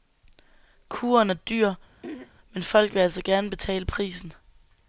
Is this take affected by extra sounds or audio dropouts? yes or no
yes